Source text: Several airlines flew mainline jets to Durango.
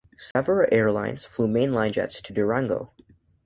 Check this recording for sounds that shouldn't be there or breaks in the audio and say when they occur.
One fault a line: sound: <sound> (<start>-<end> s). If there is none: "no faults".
sound: dropout (0.3-0.4 s)